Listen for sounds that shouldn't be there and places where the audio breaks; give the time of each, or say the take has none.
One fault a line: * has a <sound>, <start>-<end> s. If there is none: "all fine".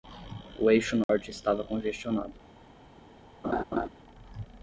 * has a dropout, 1.0-1.1 s
* has a laugh, 3.4-3.9 s